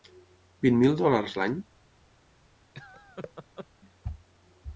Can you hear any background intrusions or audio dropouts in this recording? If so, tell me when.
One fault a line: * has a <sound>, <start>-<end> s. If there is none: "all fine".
* has a laugh, 2.7-3.7 s